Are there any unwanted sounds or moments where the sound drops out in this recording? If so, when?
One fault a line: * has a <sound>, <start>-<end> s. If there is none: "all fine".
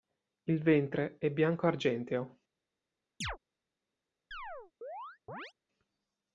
* has a chirp, 3.2-3.4 s
* has a chirp, 4.3-5.5 s